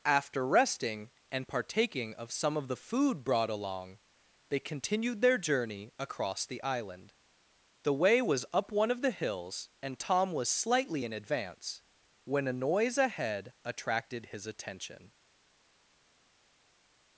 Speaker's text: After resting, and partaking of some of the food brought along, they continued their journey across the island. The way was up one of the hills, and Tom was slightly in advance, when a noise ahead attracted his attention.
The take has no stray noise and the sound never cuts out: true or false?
true